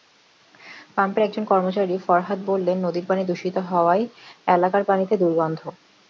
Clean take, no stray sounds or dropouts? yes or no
yes